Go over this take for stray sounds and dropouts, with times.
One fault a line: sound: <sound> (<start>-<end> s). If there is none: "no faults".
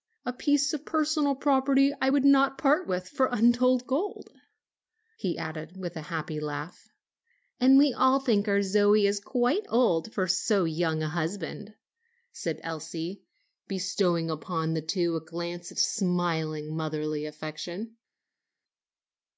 no faults